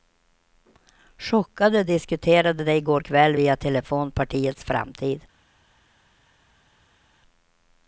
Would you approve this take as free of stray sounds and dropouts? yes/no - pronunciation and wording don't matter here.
yes